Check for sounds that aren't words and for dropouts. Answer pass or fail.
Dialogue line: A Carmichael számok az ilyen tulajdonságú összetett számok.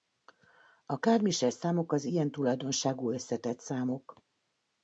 pass